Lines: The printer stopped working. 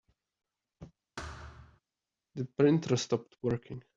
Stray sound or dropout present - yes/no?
yes